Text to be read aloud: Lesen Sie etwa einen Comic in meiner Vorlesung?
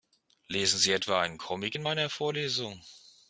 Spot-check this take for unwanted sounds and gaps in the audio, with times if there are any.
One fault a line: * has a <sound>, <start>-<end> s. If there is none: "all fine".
all fine